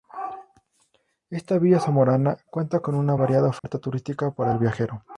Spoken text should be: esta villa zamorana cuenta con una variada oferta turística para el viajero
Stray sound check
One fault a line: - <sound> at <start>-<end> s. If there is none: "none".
- dropout at 3.6-3.6 s